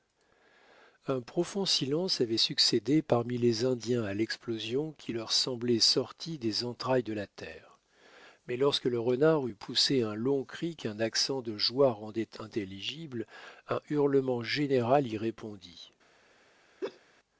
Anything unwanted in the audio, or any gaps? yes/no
yes